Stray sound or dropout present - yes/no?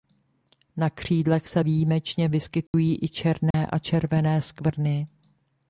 yes